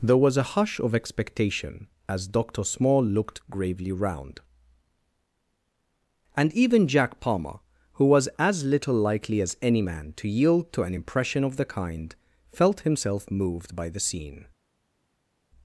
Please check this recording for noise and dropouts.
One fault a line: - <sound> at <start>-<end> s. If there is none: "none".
none